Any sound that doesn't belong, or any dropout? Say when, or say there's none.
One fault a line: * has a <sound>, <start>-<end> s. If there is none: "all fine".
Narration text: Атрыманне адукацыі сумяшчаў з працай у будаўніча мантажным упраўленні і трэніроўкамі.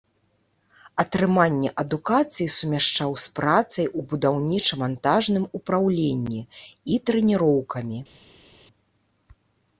all fine